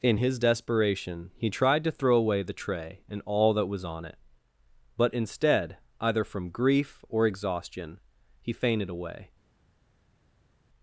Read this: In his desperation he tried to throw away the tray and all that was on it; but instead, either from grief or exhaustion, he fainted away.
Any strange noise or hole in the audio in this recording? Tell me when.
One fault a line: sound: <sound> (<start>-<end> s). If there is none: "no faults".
no faults